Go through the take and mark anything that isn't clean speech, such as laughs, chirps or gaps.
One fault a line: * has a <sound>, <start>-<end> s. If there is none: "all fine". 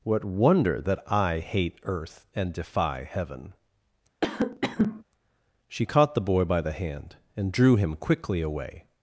* has a cough, 4.2-5.0 s